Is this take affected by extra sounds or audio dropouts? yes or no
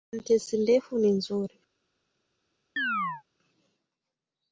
yes